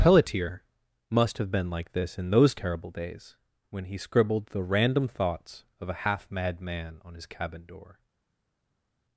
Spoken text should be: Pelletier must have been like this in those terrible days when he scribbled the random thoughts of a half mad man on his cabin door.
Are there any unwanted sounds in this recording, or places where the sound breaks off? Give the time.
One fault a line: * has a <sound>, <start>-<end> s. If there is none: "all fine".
all fine